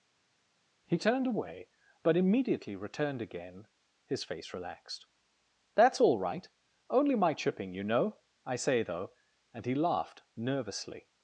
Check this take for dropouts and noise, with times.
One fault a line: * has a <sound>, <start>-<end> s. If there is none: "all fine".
all fine